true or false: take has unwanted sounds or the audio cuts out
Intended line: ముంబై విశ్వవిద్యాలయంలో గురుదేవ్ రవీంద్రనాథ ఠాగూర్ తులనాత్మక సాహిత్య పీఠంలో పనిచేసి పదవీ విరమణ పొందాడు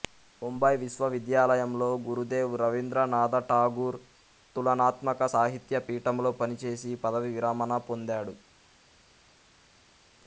false